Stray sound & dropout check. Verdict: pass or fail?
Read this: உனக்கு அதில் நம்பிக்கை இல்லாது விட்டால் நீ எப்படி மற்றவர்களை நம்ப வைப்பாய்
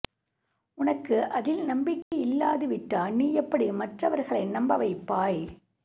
fail